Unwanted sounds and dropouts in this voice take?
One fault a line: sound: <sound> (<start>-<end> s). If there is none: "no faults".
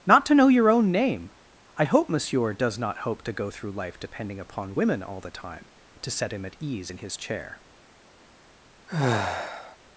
sound: sigh (8.9-9.8 s)